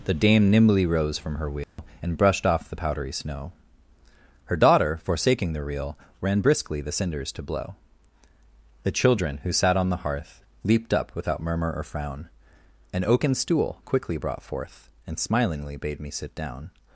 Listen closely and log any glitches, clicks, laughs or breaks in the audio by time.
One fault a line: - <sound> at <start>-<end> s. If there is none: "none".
- dropout at 1.6-1.8 s